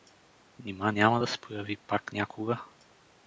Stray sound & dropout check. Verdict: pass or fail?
pass